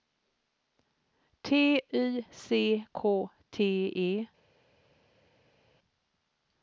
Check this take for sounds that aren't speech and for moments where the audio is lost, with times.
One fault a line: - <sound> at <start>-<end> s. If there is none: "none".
none